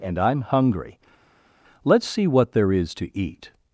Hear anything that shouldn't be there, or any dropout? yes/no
no